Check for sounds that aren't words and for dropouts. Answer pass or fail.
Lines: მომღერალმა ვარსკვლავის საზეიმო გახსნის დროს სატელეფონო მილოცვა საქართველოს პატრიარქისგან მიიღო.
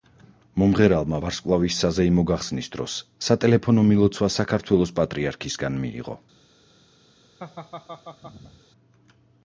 fail